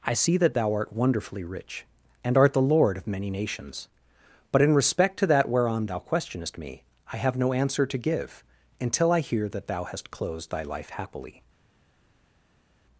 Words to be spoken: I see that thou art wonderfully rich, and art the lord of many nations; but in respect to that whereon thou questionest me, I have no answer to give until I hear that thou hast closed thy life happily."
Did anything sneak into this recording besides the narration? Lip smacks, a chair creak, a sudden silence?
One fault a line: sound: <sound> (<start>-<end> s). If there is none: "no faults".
no faults